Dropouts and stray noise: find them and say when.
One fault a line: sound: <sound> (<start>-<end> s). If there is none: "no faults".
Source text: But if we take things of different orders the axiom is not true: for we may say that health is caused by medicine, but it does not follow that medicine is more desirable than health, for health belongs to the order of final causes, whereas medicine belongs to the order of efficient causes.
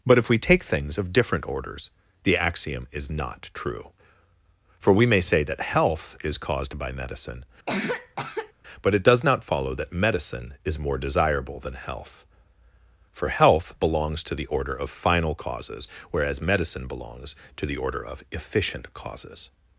sound: cough (7.7-8.5 s)